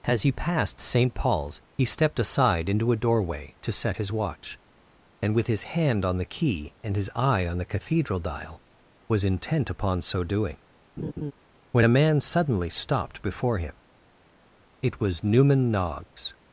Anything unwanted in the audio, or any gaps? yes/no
yes